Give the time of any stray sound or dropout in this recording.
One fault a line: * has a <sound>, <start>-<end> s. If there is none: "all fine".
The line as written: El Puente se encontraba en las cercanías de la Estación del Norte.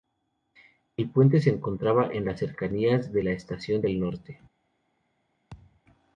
* has a thud, 5.5-5.8 s